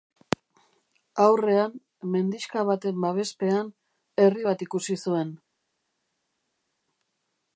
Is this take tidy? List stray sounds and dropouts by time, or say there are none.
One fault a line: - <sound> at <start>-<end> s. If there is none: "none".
none